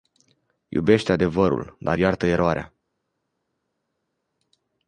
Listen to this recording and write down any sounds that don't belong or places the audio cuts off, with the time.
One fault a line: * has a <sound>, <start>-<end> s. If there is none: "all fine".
all fine